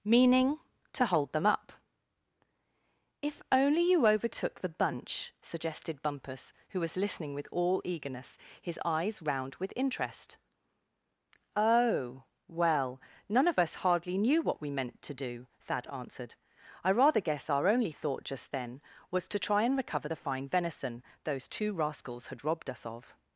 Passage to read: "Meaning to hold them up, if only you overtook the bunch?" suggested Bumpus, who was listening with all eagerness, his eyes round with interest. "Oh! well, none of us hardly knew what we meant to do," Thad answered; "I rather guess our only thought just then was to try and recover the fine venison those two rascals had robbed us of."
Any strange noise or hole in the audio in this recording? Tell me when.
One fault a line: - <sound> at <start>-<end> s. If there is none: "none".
none